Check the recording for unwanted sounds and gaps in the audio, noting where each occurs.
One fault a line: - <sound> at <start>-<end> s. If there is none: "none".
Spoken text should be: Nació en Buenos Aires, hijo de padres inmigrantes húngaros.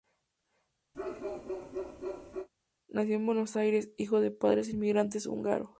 - bark at 0.9-2.5 s